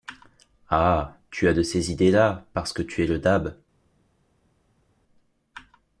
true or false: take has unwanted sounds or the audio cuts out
false